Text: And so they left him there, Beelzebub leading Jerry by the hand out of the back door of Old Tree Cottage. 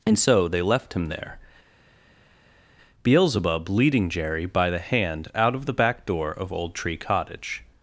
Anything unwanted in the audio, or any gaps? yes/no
no